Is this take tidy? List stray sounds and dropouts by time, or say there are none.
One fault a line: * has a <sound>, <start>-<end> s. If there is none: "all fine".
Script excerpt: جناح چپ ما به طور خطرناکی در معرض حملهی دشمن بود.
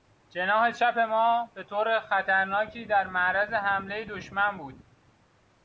all fine